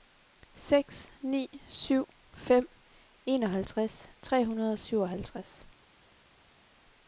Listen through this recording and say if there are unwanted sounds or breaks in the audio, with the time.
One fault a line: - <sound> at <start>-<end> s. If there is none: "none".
none